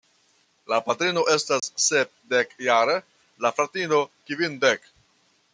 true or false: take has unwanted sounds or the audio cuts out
true